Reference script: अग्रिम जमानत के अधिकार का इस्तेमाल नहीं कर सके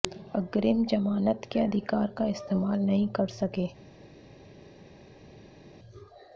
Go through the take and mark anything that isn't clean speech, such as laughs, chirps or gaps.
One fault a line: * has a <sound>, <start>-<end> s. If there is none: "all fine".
all fine